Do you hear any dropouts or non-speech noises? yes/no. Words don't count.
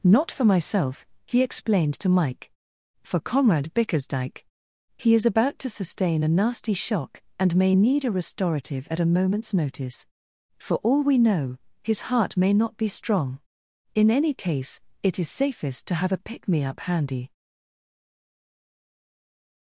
no